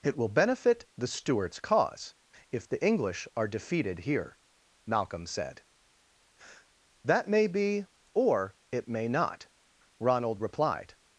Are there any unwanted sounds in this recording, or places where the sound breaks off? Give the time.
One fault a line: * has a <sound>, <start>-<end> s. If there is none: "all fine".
all fine